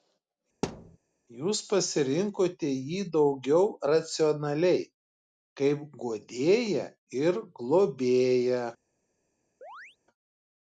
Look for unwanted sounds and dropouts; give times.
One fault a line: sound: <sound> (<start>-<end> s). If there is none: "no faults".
sound: thud (0.6-1.0 s)
sound: chirp (9.6-10.0 s)